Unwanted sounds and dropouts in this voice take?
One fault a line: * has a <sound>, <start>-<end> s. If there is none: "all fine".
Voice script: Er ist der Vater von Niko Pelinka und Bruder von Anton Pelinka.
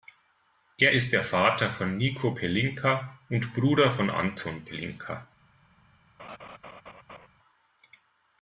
* has a laugh, 6.2-7.3 s